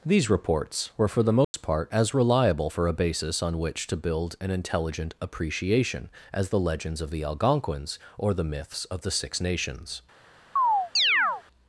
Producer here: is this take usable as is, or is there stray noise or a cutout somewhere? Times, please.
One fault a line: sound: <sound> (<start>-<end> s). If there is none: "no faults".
sound: dropout (1.4-1.5 s)
sound: chirp (10.6-11.4 s)